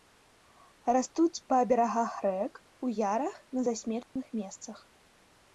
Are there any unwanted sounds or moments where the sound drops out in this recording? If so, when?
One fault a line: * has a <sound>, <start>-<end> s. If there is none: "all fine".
* has a dropout, 4.0-4.2 s